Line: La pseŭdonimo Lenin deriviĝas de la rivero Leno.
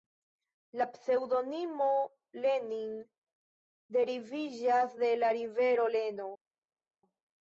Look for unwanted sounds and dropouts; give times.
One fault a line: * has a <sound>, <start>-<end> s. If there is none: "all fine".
all fine